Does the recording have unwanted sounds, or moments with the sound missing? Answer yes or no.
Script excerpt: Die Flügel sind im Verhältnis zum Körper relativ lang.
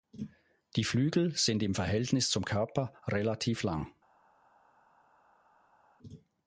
no